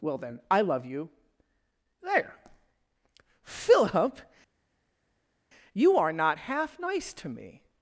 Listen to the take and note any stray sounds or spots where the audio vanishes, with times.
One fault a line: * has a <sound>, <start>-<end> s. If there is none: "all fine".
all fine